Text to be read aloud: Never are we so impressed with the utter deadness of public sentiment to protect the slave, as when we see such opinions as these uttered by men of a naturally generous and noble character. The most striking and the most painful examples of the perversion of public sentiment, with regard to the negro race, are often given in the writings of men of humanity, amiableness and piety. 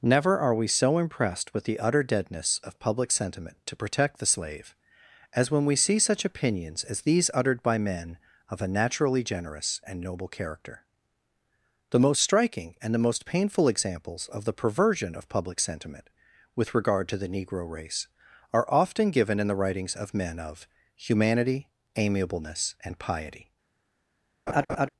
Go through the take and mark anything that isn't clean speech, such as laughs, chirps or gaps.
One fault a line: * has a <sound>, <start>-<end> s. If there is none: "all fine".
* has a laugh, 24.5-24.9 s